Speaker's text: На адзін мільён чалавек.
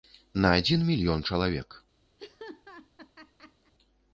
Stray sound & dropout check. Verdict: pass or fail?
fail